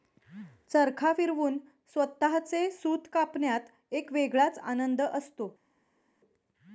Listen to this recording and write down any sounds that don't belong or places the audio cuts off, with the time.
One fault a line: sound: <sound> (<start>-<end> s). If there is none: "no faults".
no faults